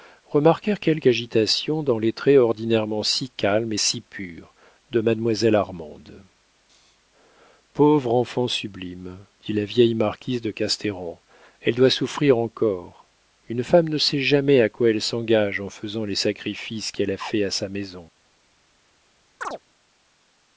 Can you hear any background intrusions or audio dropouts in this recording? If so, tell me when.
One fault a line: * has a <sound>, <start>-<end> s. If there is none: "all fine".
* has a chirp, 19.4-19.6 s